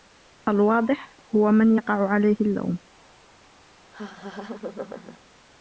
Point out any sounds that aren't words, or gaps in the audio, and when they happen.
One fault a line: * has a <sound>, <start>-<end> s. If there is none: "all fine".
* has a laugh, 3.9-5.2 s